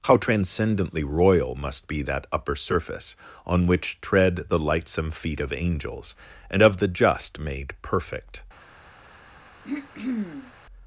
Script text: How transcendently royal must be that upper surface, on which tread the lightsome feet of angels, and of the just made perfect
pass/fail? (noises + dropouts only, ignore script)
fail